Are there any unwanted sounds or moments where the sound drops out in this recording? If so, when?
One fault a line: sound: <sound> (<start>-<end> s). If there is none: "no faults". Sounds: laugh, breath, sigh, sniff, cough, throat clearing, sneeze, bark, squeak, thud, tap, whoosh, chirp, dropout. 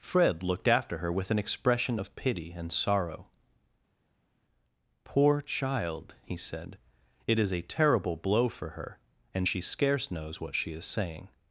no faults